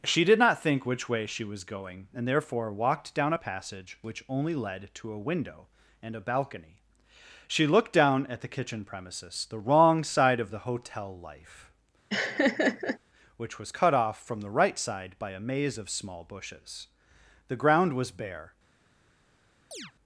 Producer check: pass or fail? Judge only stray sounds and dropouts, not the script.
fail